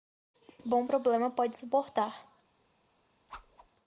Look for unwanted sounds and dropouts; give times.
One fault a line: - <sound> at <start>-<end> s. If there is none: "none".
- whoosh at 3.3-3.7 s